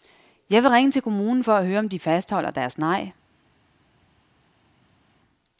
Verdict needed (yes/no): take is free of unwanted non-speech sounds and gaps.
yes